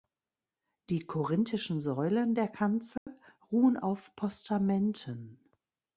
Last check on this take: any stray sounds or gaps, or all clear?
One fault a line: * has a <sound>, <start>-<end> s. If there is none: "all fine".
* has a dropout, 3.0-3.1 s